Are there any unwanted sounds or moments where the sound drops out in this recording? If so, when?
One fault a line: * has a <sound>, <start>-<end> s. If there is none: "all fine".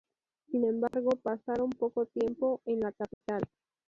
* has a dropout, 0.9-0.9 s
* has a dropout, 3.1-3.2 s